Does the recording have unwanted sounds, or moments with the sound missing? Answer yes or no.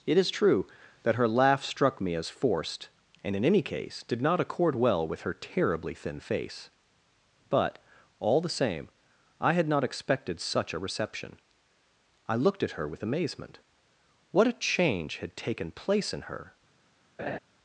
yes